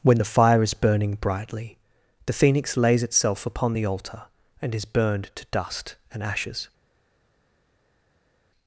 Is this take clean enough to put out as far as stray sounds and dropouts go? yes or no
yes